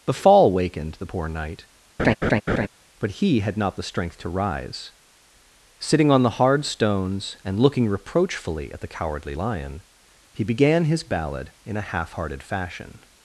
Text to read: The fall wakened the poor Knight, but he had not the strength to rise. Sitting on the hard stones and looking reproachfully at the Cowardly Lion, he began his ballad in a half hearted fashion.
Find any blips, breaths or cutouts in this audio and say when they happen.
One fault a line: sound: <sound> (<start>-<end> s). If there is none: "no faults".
sound: laugh (2.0-2.7 s)